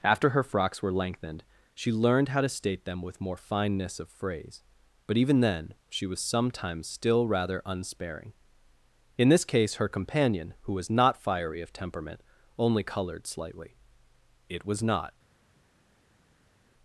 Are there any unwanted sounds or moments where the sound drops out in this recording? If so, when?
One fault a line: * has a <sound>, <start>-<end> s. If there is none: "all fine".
all fine